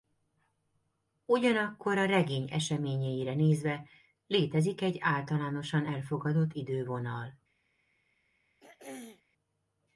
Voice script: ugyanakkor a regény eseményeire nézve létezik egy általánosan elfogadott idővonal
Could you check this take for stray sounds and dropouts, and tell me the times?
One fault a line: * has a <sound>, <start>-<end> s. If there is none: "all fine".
* has a throat clearing, 8.6-9.2 s